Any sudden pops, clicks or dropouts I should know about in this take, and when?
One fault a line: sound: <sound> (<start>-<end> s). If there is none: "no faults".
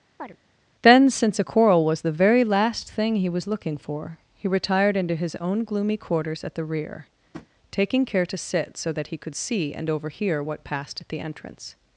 sound: chirp (0.2-0.4 s)
sound: tap (7.3-7.5 s)